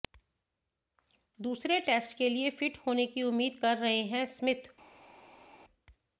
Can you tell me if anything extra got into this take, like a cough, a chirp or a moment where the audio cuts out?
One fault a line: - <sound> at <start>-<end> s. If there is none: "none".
none